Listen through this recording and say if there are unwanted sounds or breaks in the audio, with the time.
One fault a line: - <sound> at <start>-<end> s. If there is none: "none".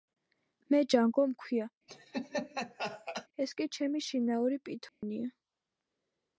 - laugh at 1.9-3.3 s
- dropout at 4.9-5.0 s